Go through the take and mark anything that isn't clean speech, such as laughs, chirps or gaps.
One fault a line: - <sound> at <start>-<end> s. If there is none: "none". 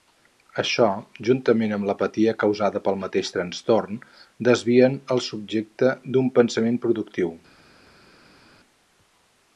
none